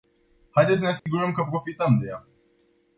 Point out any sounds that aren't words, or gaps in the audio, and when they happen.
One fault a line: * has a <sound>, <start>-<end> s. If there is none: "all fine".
* has a dropout, 1.0-1.1 s